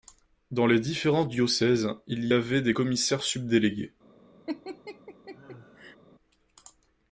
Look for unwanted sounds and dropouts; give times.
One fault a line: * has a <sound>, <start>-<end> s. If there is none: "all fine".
* has a laugh, 4.5-6.0 s